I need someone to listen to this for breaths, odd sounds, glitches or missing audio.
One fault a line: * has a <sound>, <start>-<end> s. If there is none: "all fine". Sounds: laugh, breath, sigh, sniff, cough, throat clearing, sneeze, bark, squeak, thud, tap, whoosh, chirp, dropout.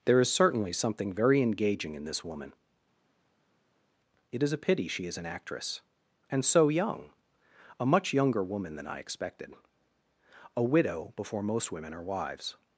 all fine